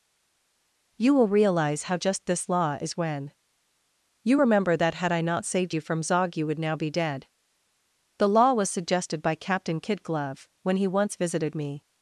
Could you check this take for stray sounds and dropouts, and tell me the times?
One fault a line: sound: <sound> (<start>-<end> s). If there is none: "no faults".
no faults